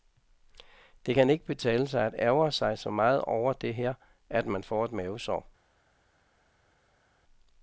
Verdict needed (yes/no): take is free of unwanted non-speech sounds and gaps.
yes